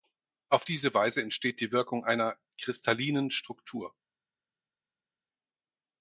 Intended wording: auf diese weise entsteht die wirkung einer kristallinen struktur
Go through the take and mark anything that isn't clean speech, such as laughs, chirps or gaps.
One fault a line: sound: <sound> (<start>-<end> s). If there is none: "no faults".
no faults